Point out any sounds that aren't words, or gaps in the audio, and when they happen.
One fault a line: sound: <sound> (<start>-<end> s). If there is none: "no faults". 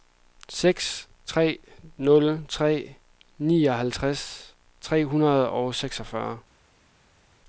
no faults